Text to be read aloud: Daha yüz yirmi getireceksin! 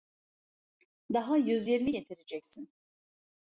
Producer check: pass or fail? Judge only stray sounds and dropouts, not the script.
pass